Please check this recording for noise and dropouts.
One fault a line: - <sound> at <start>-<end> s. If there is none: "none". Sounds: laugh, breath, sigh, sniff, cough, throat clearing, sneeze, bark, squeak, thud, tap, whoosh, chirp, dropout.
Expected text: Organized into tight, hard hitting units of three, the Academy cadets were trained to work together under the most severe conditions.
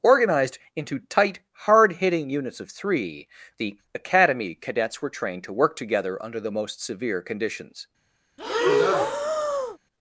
- breath at 8.4-9.8 s